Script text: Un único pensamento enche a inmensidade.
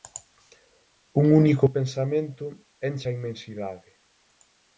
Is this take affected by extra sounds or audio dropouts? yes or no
no